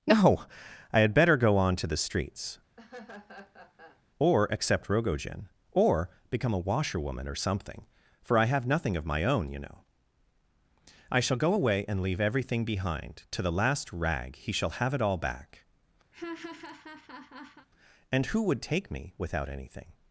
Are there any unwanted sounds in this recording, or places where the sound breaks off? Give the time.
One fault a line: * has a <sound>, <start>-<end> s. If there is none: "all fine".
* has a laugh, 2.8-4.0 s
* has a laugh, 16.1-17.7 s